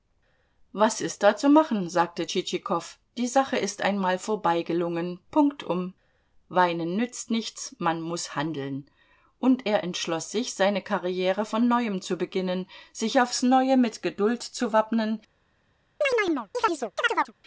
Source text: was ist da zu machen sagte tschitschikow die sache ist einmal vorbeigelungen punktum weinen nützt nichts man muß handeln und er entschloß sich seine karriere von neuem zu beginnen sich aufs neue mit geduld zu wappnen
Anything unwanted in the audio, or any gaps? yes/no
yes